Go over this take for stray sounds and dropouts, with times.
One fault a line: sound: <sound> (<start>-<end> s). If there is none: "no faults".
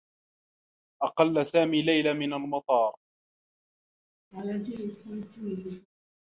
sound: laugh (4.3-5.9 s)